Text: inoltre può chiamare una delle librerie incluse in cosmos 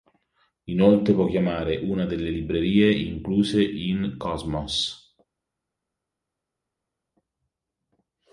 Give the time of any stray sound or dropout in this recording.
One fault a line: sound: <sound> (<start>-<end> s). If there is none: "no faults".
no faults